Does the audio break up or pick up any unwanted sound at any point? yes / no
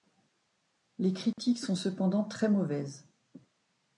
yes